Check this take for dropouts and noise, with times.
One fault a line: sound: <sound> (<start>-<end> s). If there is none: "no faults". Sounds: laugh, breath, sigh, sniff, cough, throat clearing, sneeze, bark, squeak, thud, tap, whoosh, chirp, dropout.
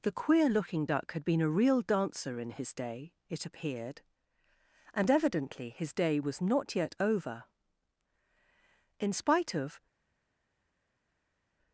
no faults